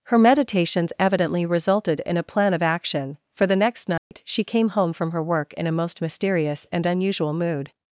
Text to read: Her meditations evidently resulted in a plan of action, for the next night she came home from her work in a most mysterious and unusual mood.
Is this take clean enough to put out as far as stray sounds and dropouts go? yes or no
no